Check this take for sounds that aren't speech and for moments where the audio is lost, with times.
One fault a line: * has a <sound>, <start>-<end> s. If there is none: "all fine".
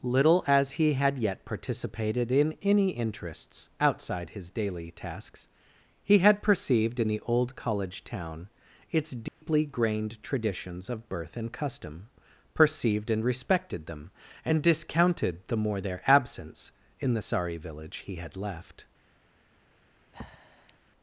* has a dropout, 9.3-9.4 s
* has a breath, 20.1-20.8 s